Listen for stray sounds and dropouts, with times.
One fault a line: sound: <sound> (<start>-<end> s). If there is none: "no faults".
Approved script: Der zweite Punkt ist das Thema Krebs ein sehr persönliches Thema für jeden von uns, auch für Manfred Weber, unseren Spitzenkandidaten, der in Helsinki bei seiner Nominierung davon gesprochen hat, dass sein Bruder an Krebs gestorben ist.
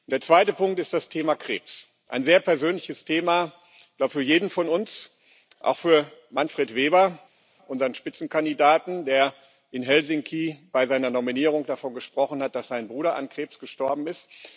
no faults